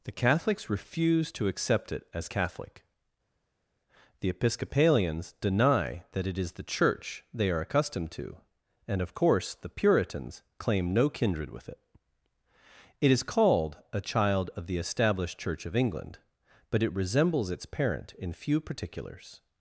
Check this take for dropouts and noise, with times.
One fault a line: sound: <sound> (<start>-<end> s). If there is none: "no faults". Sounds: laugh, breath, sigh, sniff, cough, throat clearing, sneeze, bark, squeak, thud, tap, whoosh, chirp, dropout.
no faults